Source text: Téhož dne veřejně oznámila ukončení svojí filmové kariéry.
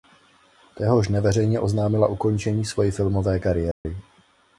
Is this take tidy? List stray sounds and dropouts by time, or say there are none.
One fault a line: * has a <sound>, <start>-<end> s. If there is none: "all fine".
* has a dropout, 3.7-3.8 s